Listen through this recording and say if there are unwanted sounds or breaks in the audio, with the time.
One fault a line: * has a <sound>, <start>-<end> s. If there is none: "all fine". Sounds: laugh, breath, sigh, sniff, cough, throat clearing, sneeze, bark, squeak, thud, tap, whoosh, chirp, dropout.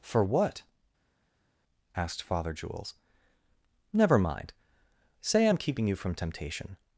all fine